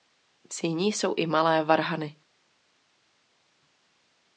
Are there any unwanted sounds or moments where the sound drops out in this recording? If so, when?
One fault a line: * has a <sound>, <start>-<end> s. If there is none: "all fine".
all fine